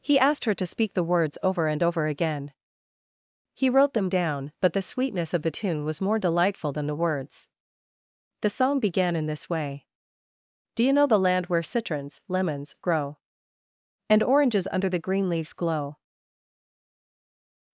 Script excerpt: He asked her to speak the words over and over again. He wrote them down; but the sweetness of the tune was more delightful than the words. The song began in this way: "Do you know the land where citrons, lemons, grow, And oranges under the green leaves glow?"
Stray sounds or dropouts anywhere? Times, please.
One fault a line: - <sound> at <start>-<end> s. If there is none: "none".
none